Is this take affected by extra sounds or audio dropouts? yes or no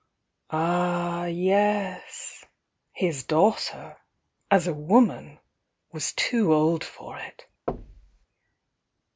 yes